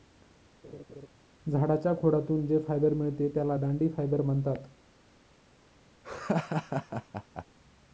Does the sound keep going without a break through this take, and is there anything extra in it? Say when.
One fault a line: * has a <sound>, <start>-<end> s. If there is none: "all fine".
* has a laugh, 0.6-1.1 s
* has a laugh, 6.0-7.4 s